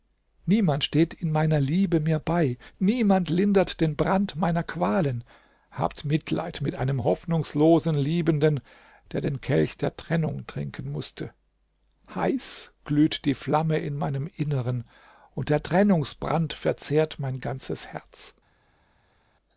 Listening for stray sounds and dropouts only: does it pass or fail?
pass